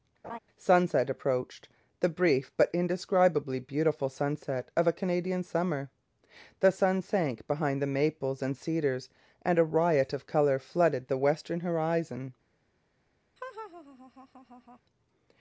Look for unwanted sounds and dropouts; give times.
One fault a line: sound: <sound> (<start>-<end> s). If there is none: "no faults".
sound: laugh (0.2-0.4 s)
sound: laugh (13.4-14.8 s)